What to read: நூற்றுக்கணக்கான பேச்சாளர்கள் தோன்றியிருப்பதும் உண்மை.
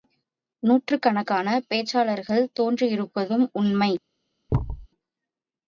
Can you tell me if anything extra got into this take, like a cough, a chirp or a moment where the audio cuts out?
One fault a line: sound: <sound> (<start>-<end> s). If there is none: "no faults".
sound: thud (4.5-4.9 s)